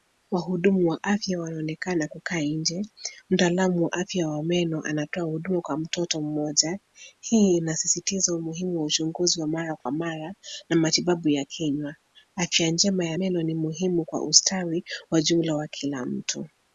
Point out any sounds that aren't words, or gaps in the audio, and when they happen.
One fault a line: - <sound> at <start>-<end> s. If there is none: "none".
- dropout at 9.8-9.9 s